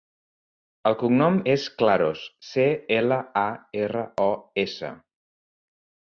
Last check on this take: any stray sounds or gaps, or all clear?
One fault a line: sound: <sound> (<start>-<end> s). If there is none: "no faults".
no faults